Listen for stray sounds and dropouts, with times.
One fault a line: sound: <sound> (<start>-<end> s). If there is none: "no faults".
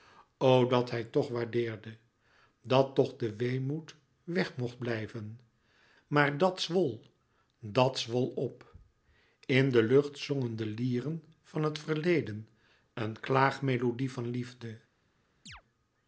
sound: chirp (15.5-15.6 s)